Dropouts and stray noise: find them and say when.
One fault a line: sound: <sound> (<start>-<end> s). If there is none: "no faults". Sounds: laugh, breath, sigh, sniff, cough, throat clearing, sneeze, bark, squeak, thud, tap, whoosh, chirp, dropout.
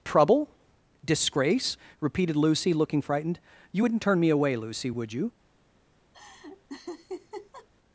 sound: laugh (6.1-7.7 s)